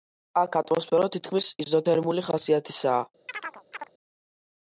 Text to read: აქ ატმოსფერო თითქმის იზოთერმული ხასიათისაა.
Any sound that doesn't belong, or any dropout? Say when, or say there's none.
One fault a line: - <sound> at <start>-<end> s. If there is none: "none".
- chirp at 3.3-3.9 s